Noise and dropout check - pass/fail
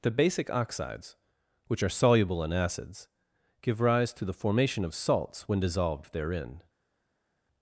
pass